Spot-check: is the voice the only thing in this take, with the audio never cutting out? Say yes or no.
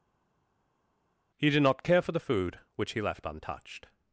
yes